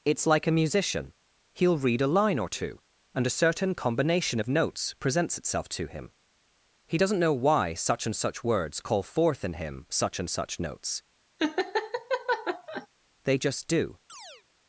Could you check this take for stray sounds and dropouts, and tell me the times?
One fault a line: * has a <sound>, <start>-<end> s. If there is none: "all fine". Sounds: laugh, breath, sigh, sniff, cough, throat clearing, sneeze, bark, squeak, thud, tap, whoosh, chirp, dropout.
* has a laugh, 11.4-12.9 s
* has a chirp, 14.1-14.4 s